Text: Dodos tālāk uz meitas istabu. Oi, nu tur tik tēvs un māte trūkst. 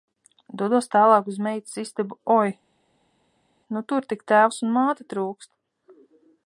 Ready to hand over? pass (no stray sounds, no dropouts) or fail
pass